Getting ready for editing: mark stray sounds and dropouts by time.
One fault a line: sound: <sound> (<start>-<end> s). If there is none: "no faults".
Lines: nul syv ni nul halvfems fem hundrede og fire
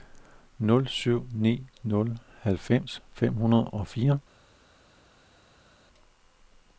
no faults